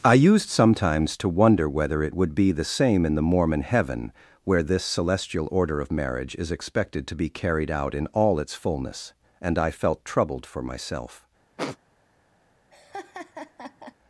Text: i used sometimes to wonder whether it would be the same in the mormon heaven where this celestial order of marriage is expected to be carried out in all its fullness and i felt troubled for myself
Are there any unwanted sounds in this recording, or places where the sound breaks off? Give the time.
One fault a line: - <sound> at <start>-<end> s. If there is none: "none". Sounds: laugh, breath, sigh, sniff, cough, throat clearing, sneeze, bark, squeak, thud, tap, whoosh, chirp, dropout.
- sniff at 11.6-11.8 s
- laugh at 12.7-14.0 s